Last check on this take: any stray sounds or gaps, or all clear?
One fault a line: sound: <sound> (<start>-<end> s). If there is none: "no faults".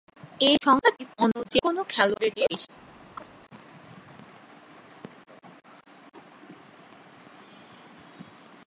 sound: chirp (3.2-3.3 s)